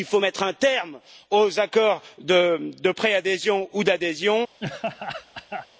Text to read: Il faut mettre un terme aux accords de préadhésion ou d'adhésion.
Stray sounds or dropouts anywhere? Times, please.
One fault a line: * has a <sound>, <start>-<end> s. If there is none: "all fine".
* has a laugh, 4.6-5.7 s